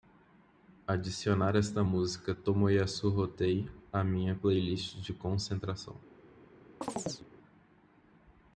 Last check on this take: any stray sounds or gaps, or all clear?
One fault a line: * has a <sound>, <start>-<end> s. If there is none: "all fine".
* has a chirp, 6.8-7.3 s